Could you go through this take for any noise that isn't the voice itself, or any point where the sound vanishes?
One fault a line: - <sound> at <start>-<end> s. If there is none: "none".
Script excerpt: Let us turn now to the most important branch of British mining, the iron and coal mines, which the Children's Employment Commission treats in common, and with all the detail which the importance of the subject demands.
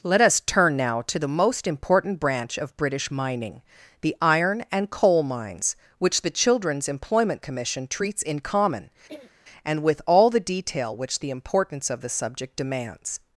- throat clearing at 9.1-9.3 s